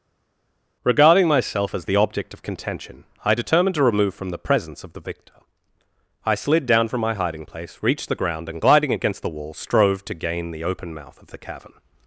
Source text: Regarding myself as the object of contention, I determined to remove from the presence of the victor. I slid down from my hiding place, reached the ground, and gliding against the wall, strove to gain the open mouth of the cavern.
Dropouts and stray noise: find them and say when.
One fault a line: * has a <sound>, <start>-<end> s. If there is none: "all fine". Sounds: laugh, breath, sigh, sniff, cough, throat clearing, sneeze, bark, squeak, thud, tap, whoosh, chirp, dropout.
all fine